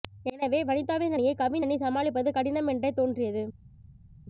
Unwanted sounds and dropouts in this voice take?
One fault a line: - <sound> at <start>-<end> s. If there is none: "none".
none